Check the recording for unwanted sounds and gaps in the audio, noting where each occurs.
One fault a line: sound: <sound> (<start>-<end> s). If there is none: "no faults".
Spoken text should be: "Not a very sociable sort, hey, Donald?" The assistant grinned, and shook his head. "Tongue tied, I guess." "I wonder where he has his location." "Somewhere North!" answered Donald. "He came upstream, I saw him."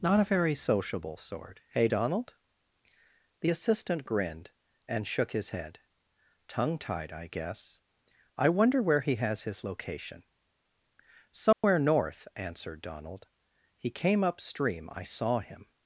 sound: dropout (11.5-11.6 s)